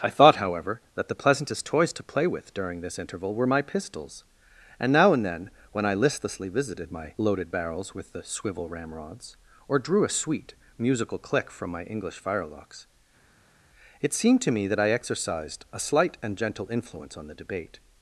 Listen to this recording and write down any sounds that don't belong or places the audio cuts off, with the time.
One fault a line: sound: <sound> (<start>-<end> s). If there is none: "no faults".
no faults